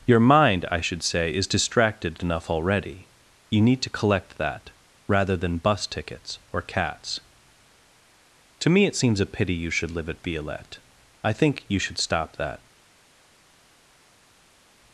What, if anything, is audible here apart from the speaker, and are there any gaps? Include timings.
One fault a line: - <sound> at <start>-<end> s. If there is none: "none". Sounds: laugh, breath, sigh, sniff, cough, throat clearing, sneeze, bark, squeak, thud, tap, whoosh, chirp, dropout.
none